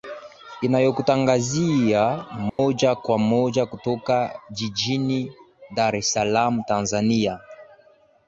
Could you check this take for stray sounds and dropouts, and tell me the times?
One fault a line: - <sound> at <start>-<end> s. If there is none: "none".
- dropout at 2.5-2.6 s